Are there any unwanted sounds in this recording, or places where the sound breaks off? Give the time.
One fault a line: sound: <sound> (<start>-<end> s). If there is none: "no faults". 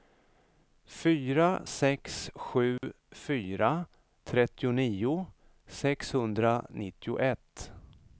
sound: dropout (2.8-2.8 s)